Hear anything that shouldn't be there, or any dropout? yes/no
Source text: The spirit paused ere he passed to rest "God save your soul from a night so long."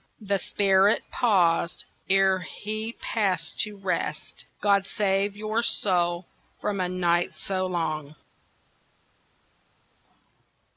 no